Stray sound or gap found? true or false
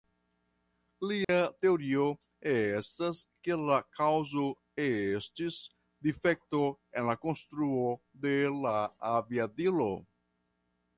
true